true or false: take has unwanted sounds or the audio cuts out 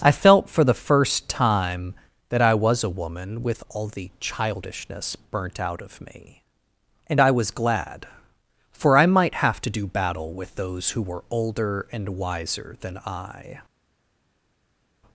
false